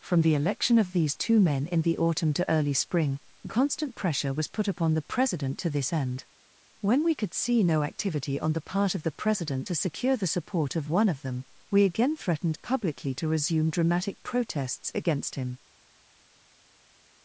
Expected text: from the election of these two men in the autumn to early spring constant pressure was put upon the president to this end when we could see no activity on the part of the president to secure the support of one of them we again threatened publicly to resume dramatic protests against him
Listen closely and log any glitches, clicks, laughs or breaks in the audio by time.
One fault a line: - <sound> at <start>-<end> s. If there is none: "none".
none